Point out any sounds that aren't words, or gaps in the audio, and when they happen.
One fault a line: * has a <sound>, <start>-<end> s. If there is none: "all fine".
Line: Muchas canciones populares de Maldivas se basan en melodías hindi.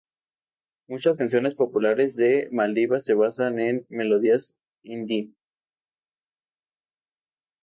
all fine